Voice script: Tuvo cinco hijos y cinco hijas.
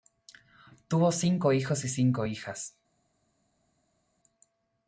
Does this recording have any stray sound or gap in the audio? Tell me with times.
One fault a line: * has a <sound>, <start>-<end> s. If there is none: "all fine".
all fine